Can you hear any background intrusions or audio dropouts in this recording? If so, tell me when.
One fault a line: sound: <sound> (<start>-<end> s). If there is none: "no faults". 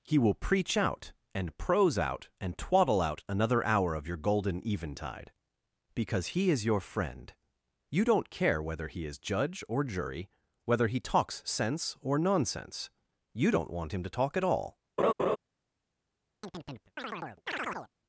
sound: laugh (15.0-15.4 s)
sound: chirp (16.4-17.9 s)